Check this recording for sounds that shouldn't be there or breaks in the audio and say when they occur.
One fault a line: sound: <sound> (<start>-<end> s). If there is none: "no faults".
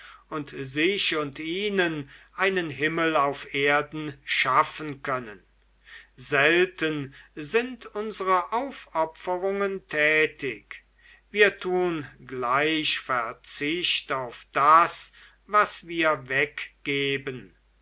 no faults